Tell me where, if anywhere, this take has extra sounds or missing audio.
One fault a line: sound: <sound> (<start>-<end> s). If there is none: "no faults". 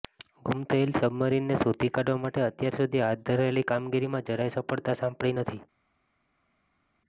no faults